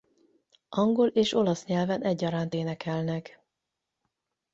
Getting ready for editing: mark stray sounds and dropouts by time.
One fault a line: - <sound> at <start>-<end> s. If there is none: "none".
none